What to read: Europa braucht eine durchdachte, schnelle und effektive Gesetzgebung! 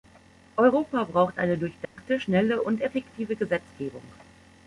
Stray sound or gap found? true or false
true